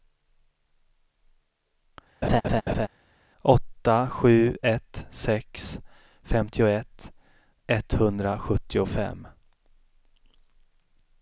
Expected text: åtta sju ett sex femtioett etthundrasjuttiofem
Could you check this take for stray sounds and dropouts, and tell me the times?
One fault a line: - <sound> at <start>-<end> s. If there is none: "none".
- laugh at 2.2-2.9 s